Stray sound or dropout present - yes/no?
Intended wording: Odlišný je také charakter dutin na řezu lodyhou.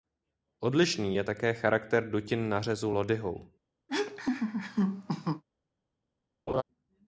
yes